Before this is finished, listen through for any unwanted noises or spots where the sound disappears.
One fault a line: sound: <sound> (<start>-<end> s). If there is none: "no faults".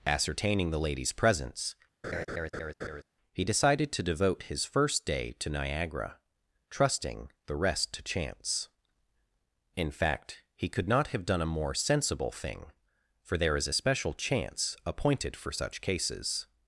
sound: laugh (2.0-3.0 s)